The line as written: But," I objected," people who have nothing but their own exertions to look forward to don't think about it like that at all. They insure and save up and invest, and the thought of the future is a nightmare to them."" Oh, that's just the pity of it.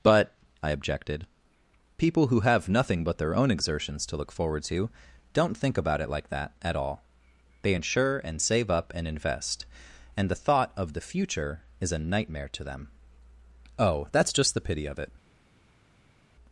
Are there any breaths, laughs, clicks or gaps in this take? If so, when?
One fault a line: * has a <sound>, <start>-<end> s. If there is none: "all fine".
all fine